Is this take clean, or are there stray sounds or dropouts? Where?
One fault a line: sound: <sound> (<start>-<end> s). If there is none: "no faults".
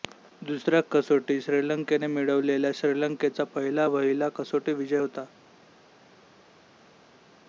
no faults